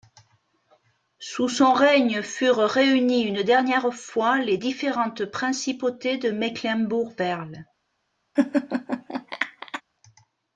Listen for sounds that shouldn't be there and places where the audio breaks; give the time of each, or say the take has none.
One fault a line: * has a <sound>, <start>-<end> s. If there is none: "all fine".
* has a laugh, 8.4-9.8 s